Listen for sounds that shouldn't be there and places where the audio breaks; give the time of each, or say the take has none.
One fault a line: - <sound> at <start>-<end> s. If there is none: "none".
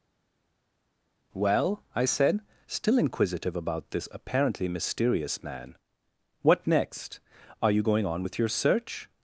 none